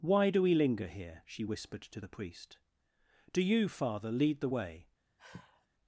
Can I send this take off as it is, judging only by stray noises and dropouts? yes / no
no